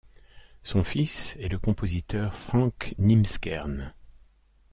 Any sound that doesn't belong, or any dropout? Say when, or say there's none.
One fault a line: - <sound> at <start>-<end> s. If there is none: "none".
none